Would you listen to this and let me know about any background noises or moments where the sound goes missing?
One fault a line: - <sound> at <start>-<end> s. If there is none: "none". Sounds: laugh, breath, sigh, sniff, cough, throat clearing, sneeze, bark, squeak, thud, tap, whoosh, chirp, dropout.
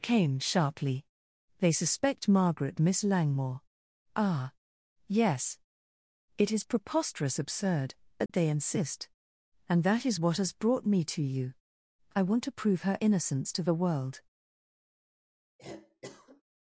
- dropout at 8.3-8.3 s
- cough at 15.6-16.4 s